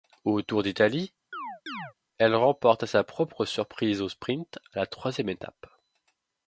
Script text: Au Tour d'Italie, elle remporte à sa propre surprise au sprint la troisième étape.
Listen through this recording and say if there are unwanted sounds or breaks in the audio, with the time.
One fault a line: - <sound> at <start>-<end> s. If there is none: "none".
- chirp at 1.3-1.9 s